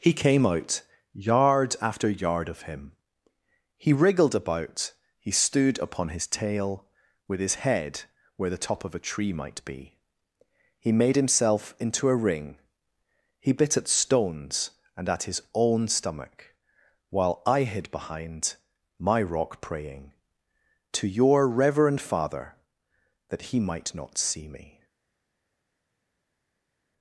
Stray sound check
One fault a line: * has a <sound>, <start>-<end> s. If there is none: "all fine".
all fine